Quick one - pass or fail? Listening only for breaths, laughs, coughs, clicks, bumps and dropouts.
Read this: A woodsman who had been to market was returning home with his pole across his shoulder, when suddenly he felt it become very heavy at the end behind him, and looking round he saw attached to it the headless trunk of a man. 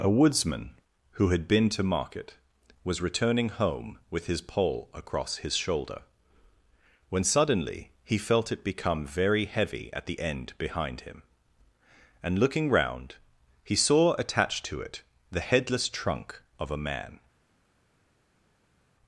pass